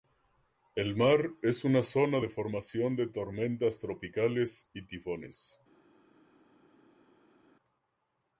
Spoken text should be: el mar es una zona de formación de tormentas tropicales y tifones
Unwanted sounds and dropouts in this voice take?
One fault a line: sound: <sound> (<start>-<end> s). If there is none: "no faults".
no faults